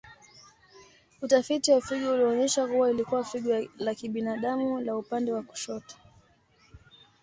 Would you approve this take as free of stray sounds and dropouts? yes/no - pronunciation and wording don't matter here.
yes